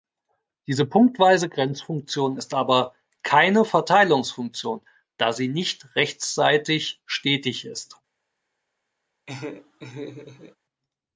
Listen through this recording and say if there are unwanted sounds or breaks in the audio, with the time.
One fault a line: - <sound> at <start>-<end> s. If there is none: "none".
- laugh at 9.3-10.6 s